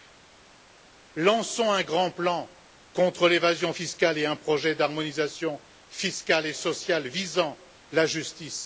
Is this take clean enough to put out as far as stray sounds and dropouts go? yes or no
yes